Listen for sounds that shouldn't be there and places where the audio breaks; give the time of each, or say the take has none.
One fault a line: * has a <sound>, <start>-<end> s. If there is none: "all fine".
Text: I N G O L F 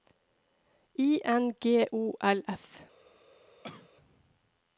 * has a cough, 3.6-3.9 s